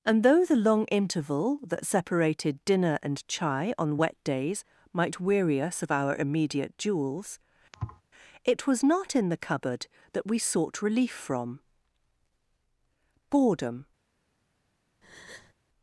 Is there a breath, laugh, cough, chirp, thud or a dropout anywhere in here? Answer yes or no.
yes